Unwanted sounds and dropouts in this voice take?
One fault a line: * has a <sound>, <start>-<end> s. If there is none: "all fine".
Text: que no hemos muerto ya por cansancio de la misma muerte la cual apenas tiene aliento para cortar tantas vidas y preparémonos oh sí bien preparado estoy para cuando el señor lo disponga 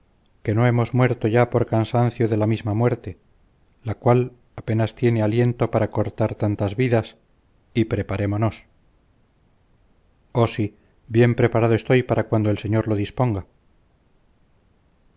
all fine